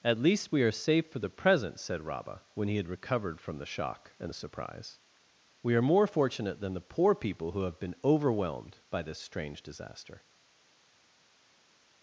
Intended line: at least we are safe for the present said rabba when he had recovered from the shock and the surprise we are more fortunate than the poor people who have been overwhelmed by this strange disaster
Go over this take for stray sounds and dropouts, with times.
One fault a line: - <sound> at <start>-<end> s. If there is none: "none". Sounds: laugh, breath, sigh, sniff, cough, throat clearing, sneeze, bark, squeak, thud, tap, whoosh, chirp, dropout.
none